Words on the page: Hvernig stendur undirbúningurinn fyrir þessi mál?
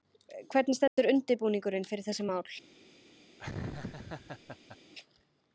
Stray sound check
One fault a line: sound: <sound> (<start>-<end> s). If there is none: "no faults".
sound: dropout (0.9-1.0 s)
sound: laugh (3.4-4.8 s)